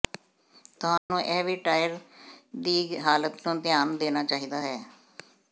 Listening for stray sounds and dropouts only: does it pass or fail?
fail